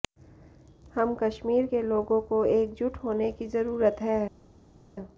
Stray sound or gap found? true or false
false